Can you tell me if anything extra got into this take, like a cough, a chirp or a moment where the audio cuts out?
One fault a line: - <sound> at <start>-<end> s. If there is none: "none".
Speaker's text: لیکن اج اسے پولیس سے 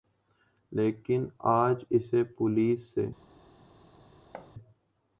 - thud at 4.3-4.5 s